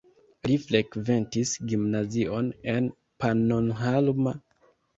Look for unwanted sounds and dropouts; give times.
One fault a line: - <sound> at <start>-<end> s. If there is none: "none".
none